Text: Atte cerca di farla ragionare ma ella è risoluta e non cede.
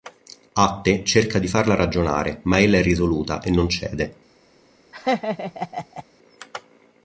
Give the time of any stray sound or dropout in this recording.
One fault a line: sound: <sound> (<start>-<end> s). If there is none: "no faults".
sound: laugh (4.9-6.0 s)